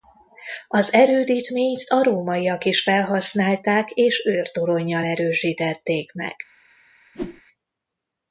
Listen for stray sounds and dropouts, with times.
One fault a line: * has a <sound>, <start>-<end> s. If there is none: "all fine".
* has a whoosh, 7.1-7.4 s